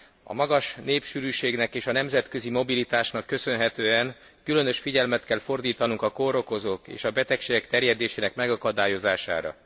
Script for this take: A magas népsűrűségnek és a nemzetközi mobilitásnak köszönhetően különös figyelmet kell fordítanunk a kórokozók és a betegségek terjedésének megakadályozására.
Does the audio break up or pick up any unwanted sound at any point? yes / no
no